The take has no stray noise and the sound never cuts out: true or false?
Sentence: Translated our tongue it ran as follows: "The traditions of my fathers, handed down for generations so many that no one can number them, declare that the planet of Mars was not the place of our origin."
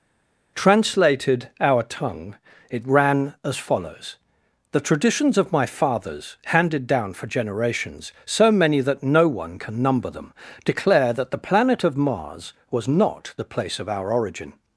true